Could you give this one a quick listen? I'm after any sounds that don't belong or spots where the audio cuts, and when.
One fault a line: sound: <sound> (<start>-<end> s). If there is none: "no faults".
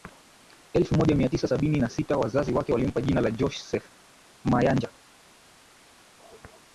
no faults